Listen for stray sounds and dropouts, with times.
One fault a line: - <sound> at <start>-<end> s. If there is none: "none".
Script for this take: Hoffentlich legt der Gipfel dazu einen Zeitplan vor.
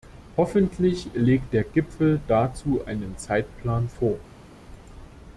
none